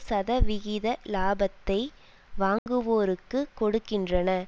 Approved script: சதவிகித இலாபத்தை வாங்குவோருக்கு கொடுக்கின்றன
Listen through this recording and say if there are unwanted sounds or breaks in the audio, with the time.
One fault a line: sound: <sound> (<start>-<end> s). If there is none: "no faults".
sound: dropout (2.6-2.7 s)